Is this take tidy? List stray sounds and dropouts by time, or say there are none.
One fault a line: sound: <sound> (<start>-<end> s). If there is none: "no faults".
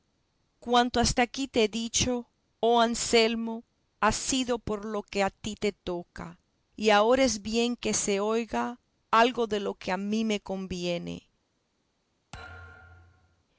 sound: thud (12.3-13.4 s)